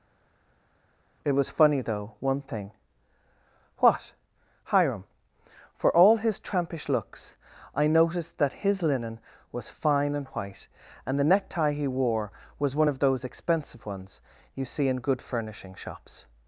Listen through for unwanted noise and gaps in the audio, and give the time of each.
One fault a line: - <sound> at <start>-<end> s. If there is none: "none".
none